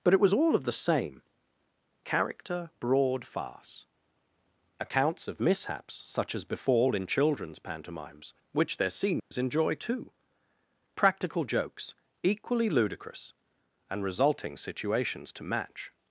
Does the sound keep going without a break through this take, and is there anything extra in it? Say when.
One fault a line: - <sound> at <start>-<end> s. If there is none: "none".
- dropout at 9.2-9.3 s